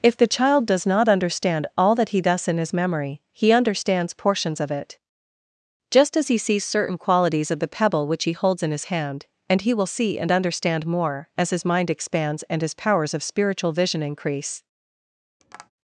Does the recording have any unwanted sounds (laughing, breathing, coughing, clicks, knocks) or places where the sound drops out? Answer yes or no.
yes